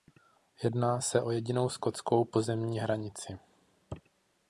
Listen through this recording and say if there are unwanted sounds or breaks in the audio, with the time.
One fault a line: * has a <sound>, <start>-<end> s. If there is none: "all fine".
all fine